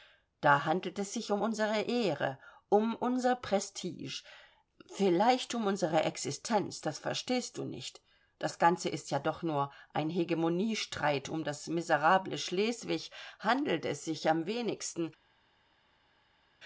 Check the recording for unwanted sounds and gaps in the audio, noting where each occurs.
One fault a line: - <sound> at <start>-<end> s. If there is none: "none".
none